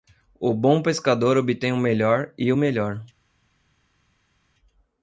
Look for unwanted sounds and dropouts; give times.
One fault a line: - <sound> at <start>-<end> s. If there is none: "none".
none